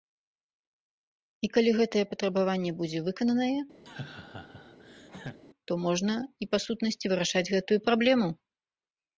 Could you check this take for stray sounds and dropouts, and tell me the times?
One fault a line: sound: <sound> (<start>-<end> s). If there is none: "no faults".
sound: laugh (3.9-5.4 s)